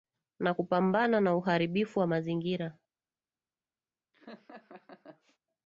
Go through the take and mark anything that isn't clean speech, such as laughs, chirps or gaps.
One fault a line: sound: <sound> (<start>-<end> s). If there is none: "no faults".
sound: laugh (4.1-5.4 s)